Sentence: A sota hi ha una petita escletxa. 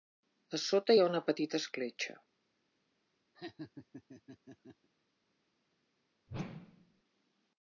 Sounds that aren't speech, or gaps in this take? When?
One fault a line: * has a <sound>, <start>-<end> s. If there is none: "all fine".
* has a laugh, 3.3-4.9 s
* has a whoosh, 6.3-7.0 s